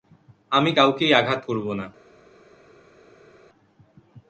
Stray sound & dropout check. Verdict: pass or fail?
pass